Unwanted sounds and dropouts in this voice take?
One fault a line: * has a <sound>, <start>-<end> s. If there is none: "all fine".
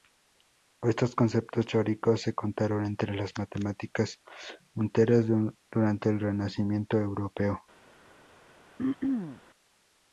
* has a throat clearing, 8.8-9.4 s